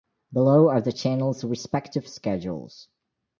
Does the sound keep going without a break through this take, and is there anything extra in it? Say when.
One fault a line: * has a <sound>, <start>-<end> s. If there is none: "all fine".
all fine